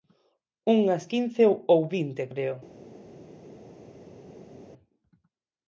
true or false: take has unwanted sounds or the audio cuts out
false